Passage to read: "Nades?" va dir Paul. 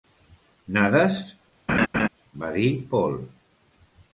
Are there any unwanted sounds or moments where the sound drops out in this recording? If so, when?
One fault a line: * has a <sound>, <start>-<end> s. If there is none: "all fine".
* has a laugh, 1.7-2.1 s